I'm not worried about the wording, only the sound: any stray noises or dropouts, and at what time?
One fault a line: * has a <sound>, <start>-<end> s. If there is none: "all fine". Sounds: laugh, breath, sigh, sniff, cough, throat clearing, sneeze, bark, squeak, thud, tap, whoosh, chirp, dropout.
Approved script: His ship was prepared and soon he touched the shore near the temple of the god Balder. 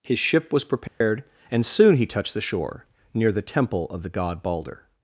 * has a dropout, 0.9-1.0 s